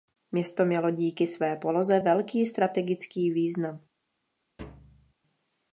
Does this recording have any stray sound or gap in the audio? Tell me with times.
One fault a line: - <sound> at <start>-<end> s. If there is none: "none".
- thud at 4.6-5.1 s